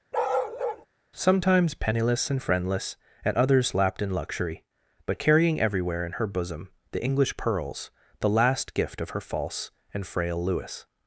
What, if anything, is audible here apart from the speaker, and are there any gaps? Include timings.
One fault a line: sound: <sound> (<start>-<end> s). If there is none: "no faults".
sound: bark (0.1-0.9 s)